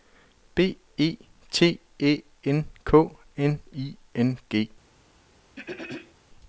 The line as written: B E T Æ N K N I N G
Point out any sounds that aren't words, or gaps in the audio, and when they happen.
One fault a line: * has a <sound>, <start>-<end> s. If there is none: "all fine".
* has a throat clearing, 5.6-6.1 s